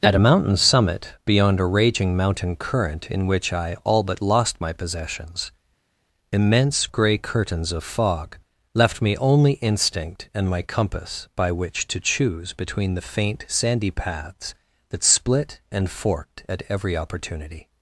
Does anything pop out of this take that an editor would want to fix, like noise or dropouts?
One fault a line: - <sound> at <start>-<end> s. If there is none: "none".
none